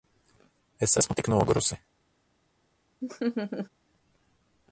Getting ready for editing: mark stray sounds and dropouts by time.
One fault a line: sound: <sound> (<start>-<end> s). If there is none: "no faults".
sound: laugh (3.0-3.7 s)